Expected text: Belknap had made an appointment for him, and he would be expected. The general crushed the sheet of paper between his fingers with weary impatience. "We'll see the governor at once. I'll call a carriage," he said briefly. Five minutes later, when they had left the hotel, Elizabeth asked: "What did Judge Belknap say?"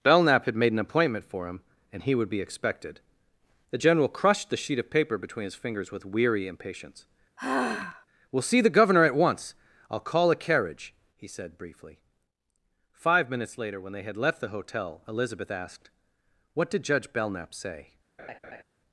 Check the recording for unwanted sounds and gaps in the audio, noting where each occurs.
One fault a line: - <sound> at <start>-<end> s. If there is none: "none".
- sigh at 7.4-8.1 s
- laugh at 18.2-18.6 s